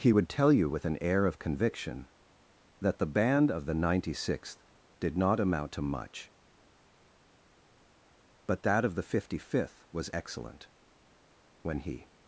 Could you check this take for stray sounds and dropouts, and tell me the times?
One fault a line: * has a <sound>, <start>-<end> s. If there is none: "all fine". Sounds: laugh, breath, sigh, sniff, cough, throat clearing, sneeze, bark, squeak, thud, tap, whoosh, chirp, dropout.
all fine